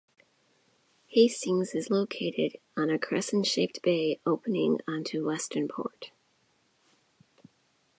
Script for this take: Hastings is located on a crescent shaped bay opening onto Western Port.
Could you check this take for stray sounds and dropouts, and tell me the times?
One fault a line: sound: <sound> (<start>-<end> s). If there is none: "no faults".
no faults